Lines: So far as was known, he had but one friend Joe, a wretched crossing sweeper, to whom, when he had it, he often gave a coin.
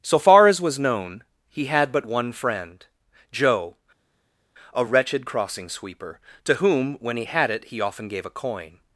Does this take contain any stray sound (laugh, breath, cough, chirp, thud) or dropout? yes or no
no